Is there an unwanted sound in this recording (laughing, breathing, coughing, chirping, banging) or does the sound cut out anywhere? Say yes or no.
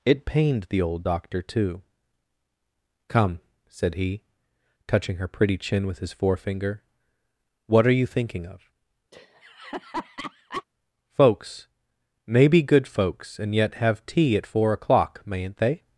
yes